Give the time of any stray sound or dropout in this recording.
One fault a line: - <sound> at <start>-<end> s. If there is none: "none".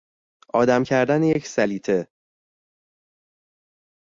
none